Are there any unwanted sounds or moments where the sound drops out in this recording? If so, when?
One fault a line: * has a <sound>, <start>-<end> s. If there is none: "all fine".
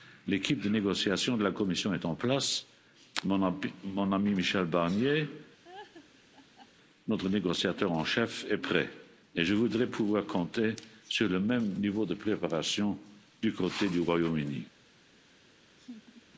* has a laugh, 5.6-6.7 s
* has a laugh, 15.8-16.2 s